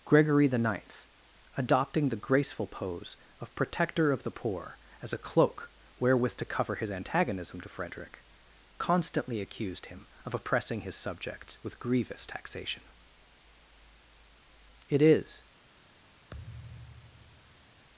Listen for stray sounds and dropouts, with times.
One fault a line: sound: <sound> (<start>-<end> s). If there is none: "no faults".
sound: thud (16.3-17.9 s)